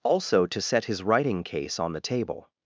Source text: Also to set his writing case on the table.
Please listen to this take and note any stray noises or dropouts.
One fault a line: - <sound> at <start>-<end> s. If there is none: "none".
none